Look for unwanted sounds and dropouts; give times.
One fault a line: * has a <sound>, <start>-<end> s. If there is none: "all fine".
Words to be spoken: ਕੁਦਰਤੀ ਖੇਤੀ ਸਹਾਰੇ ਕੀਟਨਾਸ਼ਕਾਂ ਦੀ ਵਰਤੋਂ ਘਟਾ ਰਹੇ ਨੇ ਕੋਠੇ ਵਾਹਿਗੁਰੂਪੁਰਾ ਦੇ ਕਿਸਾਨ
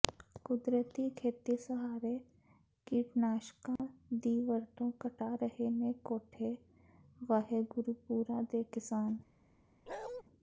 * has a dropout, 3.8-3.8 s
* has a bark, 9.9-10.2 s